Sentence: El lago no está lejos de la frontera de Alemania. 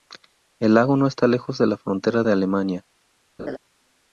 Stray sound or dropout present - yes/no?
yes